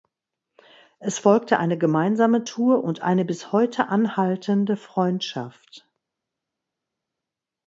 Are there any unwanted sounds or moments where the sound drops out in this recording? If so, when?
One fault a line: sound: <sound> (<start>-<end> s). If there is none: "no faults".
no faults